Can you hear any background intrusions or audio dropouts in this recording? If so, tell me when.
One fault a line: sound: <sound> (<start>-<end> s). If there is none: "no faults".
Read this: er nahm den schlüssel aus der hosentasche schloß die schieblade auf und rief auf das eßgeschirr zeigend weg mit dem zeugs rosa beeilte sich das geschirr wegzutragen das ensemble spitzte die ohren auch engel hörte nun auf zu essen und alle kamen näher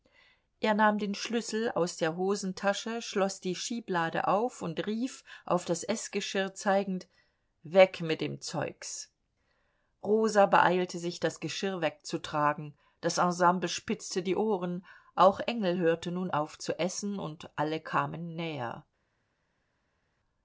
no faults